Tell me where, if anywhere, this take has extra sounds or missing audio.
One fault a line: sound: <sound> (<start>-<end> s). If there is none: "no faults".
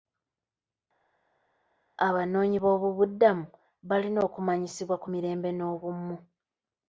no faults